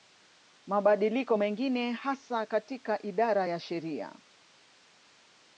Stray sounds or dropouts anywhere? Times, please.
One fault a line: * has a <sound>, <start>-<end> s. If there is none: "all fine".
all fine